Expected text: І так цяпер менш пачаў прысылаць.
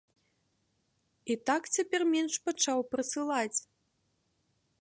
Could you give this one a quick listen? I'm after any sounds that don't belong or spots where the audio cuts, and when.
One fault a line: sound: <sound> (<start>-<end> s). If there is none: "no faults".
no faults